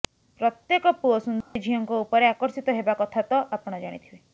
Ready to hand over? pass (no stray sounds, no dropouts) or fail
fail